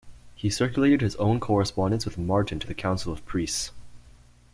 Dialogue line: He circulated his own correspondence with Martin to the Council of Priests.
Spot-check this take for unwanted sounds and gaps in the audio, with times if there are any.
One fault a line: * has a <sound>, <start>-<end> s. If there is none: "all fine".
all fine